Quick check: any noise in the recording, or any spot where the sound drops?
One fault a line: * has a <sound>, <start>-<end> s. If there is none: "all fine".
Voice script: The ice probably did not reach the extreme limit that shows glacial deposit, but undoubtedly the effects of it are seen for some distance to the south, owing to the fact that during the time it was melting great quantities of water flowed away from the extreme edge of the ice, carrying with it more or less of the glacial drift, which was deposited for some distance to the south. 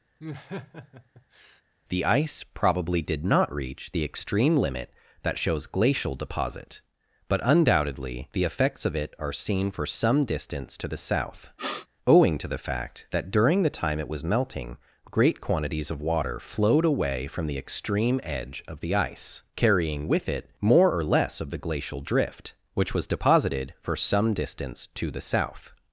* has a laugh, 0.2-1.6 s
* has a sniff, 11.6-11.9 s